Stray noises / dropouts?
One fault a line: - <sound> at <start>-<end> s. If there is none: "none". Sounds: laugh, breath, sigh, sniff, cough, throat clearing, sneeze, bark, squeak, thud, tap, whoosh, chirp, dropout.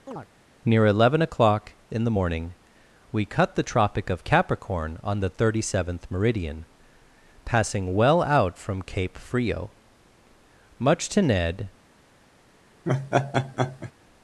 - chirp at 0.1-0.3 s
- laugh at 12.8-13.9 s